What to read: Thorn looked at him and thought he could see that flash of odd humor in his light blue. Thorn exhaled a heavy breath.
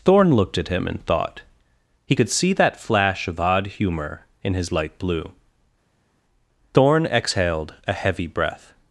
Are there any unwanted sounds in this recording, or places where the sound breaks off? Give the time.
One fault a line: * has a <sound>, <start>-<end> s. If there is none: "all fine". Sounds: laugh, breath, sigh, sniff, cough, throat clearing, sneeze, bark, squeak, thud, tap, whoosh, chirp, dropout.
all fine